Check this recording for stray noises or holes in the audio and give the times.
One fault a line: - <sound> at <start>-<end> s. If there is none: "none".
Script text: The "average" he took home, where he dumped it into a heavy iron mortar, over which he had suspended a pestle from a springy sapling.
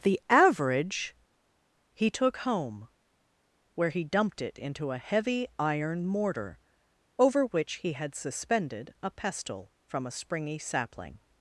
none